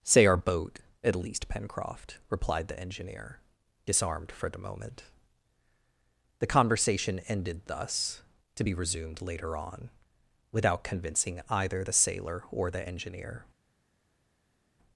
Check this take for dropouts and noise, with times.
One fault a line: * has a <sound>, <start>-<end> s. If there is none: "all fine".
all fine